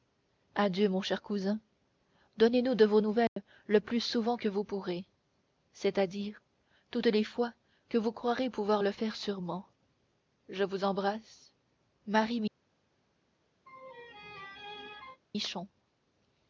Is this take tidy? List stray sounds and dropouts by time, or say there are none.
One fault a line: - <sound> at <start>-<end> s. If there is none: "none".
- dropout at 3.3-3.4 s
- laugh at 13.7-15.2 s